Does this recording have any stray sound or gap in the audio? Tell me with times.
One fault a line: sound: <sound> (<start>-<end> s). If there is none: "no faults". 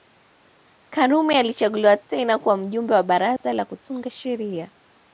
sound: dropout (3.4-3.4 s)